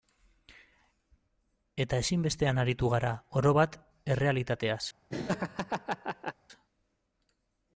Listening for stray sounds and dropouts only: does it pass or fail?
fail